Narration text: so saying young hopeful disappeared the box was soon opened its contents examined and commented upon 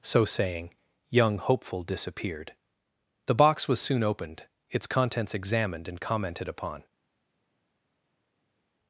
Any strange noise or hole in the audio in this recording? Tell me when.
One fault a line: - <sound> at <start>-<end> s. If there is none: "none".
none